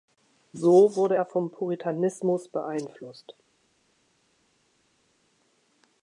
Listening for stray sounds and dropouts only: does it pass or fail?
pass